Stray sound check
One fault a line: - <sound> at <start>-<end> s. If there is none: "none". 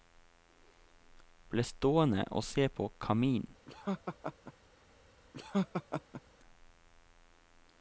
- laugh at 3.7-4.5 s
- laugh at 5.3-6.2 s